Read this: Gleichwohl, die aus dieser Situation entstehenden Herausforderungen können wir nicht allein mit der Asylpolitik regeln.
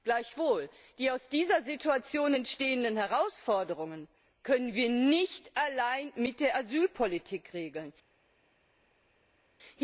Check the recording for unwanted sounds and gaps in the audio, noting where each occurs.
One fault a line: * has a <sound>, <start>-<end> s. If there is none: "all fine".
all fine